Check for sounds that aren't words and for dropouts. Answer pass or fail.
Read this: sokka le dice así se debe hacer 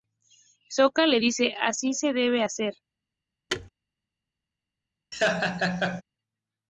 fail